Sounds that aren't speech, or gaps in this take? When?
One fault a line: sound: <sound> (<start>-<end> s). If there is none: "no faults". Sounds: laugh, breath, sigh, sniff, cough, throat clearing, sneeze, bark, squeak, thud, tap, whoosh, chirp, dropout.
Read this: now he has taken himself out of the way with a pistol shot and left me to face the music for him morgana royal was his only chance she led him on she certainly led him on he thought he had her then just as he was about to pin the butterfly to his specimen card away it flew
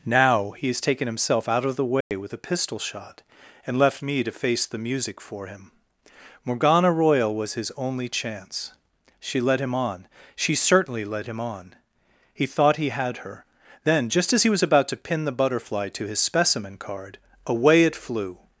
sound: dropout (2.0-2.1 s)